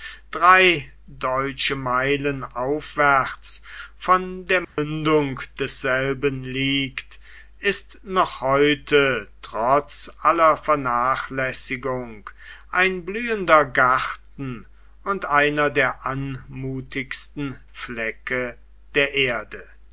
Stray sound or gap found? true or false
true